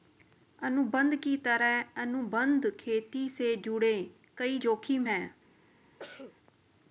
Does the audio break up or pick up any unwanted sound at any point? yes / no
yes